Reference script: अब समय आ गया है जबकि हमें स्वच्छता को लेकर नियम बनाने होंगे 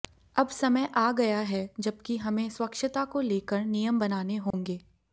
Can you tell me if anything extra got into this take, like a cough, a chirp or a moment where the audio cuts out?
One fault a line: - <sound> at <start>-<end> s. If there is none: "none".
- dropout at 4.5-4.5 s